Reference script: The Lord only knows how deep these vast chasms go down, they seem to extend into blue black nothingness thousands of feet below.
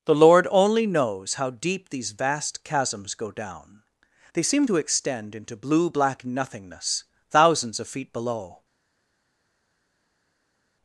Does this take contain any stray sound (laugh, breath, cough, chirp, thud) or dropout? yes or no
no